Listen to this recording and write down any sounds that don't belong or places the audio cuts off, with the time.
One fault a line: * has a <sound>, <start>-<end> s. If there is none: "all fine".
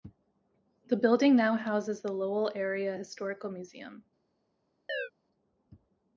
* has a chirp, 4.9-5.1 s